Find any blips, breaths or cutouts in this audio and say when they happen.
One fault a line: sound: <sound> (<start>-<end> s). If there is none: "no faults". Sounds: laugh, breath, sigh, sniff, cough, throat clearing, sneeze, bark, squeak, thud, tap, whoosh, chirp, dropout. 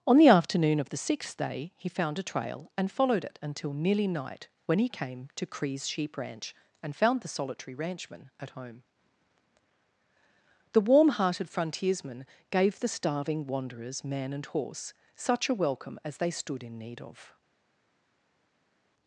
no faults